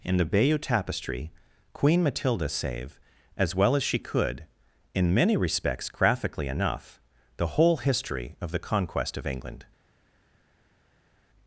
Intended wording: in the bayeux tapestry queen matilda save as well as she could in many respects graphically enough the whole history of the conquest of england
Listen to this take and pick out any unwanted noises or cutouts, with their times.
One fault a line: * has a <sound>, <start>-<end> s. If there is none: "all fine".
all fine